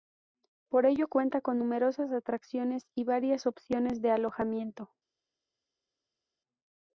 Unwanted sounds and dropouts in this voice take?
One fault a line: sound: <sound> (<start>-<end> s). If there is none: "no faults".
no faults